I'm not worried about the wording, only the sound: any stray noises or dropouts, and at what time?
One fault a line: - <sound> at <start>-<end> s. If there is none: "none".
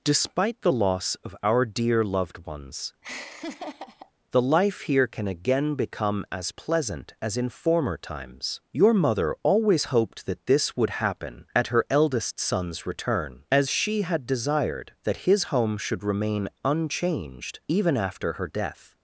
- laugh at 3.0-4.1 s